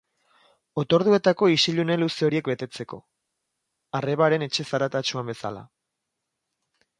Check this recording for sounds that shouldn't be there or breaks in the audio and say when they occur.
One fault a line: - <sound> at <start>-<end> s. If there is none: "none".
none